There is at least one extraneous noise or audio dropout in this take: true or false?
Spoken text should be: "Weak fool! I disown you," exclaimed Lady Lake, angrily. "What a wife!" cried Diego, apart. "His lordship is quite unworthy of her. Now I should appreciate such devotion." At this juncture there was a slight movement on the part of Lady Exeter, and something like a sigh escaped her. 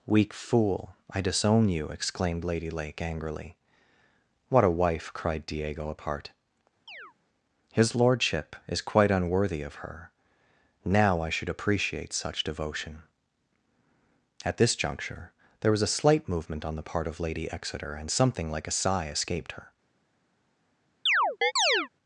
true